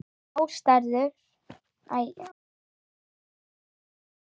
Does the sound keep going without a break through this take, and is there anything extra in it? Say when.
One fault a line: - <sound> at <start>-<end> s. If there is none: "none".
none